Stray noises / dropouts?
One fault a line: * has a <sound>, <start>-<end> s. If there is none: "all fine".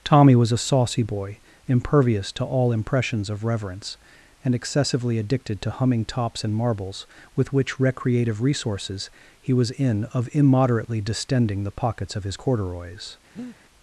* has a breath, 13.4-13.6 s